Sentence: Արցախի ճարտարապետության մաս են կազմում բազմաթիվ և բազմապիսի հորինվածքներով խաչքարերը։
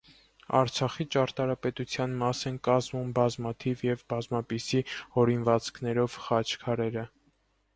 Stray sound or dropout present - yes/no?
no